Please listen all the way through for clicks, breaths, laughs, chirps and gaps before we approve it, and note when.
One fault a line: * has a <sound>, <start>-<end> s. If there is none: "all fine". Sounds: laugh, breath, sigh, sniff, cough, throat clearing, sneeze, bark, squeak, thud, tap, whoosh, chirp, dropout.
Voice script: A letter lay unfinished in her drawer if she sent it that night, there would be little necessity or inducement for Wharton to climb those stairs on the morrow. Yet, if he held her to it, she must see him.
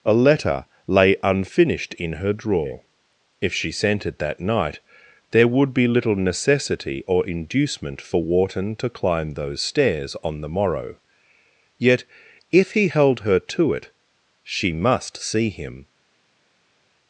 all fine